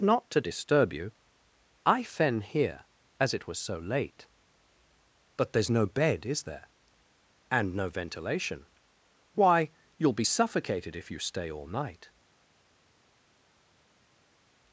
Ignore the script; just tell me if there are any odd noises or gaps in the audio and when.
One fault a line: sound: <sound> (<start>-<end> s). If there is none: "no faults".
no faults